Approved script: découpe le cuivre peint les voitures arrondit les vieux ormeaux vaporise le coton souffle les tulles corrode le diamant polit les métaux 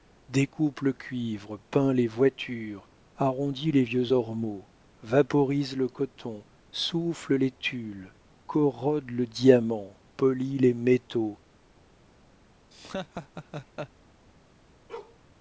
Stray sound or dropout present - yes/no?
yes